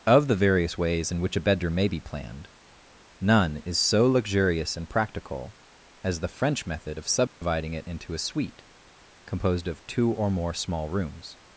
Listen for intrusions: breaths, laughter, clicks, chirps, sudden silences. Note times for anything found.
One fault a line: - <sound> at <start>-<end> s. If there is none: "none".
- dropout at 7.3-7.4 s